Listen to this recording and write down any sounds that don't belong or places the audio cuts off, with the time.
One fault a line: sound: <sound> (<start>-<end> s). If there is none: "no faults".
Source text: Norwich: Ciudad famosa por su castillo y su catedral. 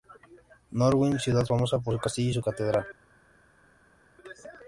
no faults